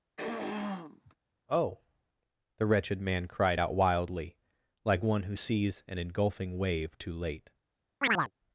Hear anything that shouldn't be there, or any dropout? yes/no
yes